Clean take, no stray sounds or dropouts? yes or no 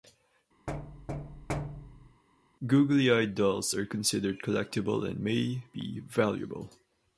no